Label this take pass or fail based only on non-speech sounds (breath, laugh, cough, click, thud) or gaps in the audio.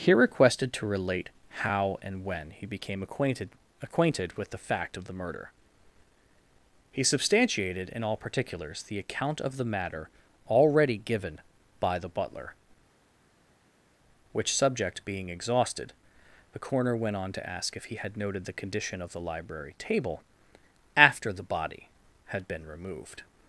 pass